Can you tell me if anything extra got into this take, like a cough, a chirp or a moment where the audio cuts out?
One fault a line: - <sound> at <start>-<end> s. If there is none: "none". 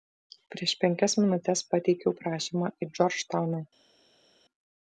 none